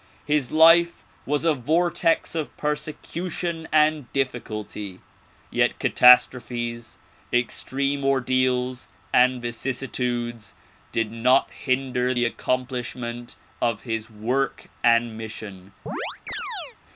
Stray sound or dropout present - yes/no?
yes